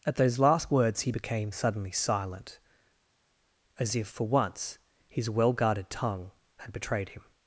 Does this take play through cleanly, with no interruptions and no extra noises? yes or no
yes